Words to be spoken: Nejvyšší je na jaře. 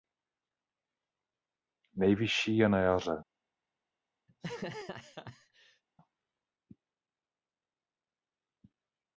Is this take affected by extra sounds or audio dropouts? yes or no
yes